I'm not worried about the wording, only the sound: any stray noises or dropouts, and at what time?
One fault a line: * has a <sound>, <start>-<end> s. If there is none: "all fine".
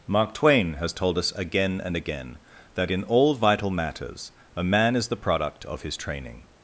all fine